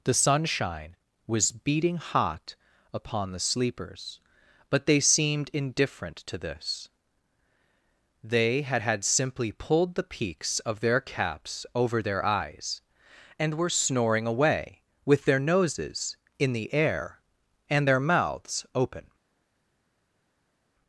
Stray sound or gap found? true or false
false